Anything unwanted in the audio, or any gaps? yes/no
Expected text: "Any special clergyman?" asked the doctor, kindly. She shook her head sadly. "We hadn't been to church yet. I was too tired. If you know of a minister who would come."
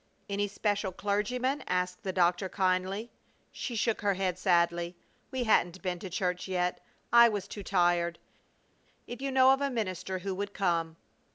no